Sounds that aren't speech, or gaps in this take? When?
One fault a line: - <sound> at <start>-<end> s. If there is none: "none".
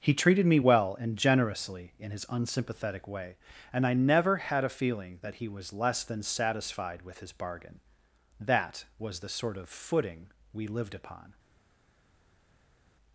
none